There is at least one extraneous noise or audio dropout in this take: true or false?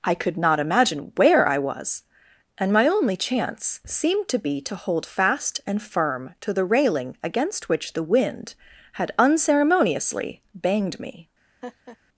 true